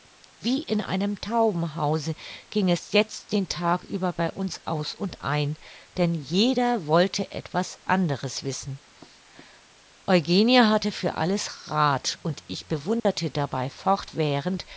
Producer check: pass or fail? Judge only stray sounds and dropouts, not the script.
fail